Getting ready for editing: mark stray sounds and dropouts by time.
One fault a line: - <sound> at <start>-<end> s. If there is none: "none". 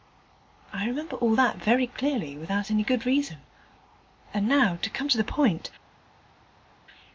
none